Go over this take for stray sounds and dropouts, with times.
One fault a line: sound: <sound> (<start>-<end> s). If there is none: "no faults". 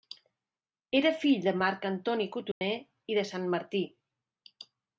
sound: dropout (2.5-2.6 s)